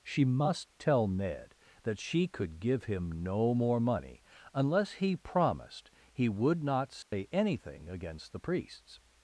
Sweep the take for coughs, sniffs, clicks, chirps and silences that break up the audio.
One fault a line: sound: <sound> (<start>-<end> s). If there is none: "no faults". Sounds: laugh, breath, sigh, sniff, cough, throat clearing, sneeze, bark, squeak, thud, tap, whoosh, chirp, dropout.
sound: dropout (7.0-7.1 s)